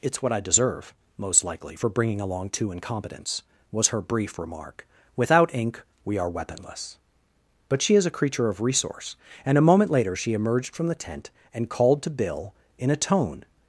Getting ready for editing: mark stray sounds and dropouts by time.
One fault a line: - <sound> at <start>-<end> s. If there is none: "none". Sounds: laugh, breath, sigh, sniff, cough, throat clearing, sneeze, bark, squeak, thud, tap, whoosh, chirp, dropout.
none